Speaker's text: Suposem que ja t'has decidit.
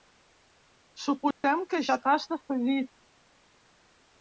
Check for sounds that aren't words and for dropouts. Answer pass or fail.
fail